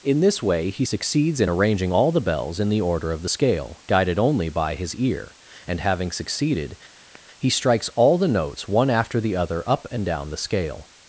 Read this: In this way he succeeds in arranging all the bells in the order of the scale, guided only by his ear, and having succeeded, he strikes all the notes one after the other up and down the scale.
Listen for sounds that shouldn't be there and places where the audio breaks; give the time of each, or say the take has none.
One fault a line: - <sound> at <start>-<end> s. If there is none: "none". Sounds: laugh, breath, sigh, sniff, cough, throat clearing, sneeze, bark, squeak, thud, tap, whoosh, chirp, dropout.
- sigh at 7.0-7.2 s